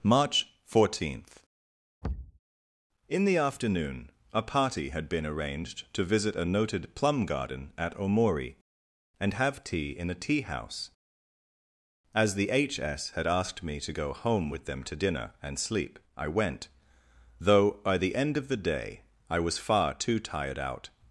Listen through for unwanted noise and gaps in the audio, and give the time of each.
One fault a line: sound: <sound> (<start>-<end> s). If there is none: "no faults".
sound: thud (2.0-2.4 s)